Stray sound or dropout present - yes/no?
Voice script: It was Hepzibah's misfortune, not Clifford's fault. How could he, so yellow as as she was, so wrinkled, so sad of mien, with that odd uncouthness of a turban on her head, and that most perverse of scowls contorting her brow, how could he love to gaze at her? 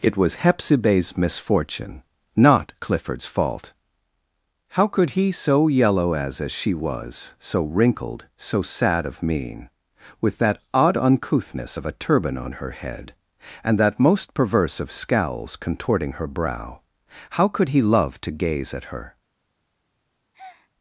yes